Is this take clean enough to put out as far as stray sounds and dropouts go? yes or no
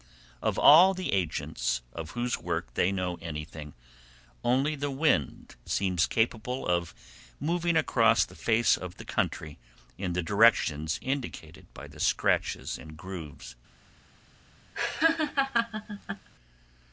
no